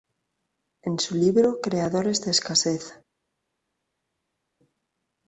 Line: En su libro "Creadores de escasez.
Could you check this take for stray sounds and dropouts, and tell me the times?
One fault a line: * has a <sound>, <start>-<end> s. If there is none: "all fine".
all fine